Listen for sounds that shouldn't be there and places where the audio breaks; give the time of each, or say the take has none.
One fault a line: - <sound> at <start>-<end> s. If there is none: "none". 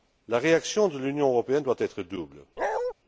- bark at 2.6-2.9 s